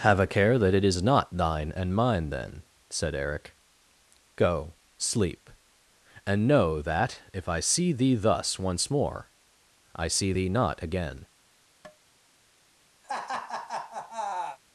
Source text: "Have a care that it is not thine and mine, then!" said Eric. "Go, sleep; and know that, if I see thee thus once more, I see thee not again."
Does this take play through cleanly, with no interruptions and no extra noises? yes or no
no